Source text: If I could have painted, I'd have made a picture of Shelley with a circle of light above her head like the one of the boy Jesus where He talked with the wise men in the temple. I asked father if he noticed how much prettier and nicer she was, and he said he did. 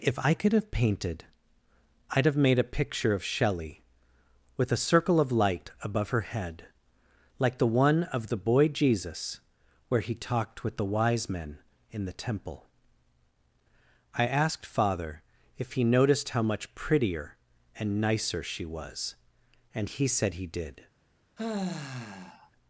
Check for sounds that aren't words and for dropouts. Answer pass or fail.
fail